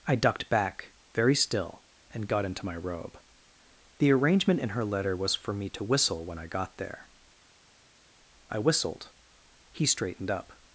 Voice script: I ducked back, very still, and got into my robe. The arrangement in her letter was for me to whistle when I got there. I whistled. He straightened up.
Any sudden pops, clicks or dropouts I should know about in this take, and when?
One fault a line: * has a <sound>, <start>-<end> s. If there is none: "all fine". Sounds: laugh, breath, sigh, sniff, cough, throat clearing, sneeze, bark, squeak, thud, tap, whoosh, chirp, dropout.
all fine